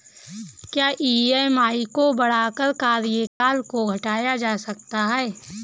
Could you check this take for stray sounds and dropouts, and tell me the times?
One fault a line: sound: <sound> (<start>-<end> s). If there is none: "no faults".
sound: dropout (3.3-3.4 s)